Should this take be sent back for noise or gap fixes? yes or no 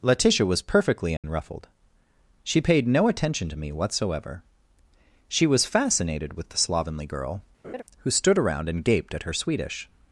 yes